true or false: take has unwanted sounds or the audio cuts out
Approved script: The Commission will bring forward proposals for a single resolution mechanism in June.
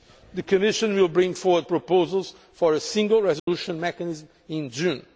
true